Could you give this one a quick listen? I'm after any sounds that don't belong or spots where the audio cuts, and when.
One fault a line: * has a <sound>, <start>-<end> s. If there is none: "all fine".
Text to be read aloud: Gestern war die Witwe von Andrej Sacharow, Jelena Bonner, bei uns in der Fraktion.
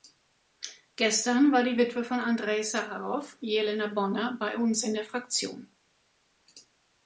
all fine